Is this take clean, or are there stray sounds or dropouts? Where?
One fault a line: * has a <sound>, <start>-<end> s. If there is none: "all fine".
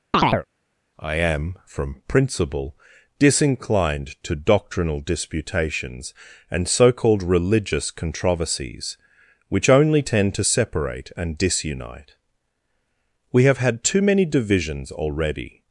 * has a chirp, 0.1-0.5 s